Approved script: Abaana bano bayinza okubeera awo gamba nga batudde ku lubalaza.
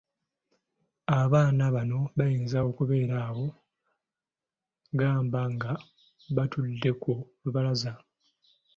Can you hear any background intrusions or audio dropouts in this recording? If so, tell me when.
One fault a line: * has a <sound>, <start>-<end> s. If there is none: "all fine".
all fine